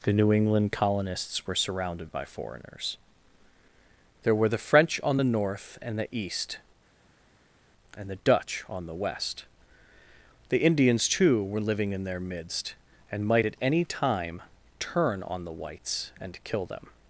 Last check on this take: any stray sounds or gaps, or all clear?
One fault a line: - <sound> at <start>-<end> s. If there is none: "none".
none